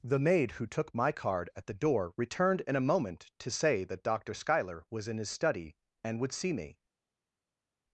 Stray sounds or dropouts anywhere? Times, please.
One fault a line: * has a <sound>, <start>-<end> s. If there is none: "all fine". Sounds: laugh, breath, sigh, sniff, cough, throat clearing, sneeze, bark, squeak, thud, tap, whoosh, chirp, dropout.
all fine